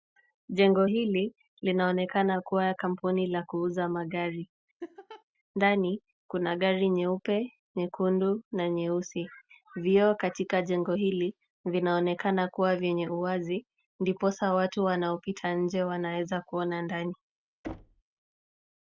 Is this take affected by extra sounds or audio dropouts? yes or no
yes